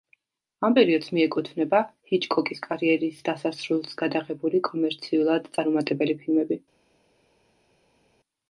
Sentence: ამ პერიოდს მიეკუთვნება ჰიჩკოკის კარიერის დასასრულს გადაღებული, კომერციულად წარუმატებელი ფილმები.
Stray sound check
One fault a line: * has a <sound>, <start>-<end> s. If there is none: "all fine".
all fine